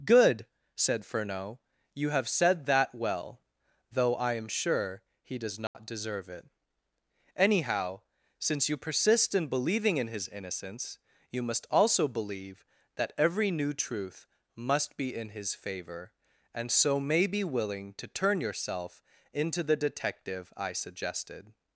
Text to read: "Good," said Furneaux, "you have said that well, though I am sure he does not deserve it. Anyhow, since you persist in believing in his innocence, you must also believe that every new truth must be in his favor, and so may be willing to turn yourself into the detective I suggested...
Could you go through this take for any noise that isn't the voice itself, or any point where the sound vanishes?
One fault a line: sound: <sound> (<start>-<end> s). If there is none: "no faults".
sound: dropout (5.7-5.8 s)